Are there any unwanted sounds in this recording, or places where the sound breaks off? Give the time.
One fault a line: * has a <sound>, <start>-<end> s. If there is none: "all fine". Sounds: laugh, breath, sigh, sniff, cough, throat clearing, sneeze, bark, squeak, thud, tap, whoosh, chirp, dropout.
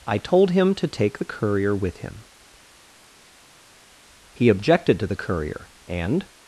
all fine